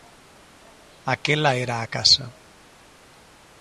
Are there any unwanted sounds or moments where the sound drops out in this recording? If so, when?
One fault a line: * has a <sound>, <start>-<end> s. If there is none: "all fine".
all fine